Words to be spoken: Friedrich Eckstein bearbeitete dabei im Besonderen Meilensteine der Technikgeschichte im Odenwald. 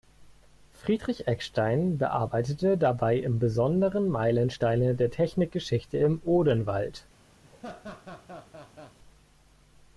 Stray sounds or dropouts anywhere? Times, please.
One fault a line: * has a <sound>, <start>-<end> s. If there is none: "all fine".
* has a laugh, 7.4-9.0 s